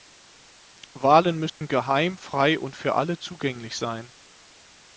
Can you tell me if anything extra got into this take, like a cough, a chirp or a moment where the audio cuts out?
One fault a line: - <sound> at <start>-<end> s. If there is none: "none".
- dropout at 1.5-1.6 s